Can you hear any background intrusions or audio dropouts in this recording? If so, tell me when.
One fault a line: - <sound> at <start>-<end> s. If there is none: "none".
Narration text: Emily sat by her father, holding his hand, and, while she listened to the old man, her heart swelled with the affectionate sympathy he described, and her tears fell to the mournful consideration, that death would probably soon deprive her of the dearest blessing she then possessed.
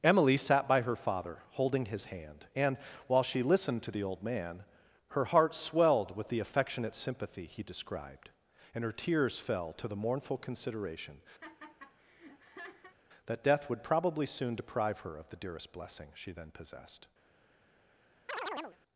- laugh at 11.4-13.0 s
- chirp at 18.3-18.8 s